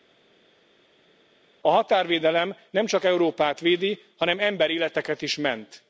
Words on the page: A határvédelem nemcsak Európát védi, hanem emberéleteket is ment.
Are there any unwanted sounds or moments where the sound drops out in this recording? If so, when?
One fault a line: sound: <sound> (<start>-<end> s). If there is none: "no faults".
no faults